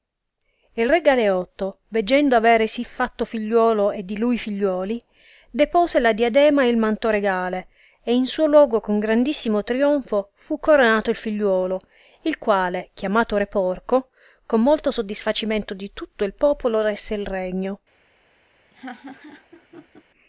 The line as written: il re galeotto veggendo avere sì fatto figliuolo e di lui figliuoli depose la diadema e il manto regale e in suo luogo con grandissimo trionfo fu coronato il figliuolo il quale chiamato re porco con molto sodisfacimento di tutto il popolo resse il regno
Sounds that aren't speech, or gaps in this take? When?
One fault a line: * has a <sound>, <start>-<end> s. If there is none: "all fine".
* has a laugh, 18.7-20.0 s